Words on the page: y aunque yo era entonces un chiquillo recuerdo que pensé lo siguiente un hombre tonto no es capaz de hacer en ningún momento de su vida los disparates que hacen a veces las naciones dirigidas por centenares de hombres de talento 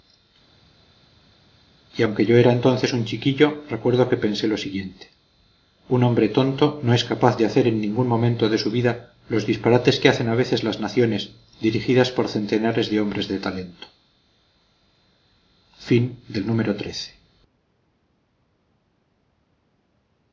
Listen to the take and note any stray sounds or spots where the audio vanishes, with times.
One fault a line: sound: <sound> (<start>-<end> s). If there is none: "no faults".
no faults